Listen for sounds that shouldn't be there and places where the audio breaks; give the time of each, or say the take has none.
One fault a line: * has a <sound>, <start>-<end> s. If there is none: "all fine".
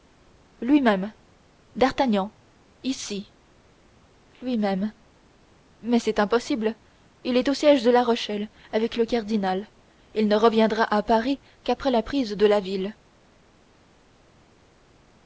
all fine